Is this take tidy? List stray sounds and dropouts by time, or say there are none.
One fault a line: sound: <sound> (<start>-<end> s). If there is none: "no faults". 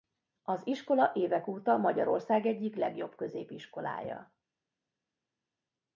no faults